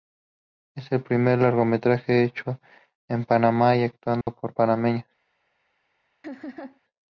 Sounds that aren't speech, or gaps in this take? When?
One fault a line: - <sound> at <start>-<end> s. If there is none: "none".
- dropout at 4.2-4.3 s
- laugh at 6.2-6.8 s